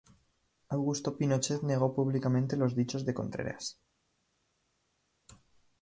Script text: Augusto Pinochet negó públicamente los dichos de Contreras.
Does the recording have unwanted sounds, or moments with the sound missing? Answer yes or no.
no